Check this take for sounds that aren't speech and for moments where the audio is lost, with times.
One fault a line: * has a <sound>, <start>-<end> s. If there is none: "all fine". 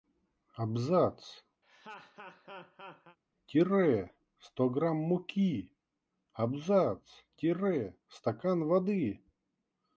* has a laugh, 1.6-3.2 s